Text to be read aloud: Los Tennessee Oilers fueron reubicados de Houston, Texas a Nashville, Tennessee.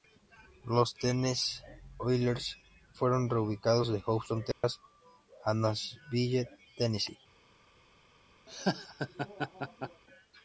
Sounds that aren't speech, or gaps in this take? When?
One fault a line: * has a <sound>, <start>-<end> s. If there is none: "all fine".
* has a dropout, 4.5-4.6 s
* has a laugh, 8.5-10.0 s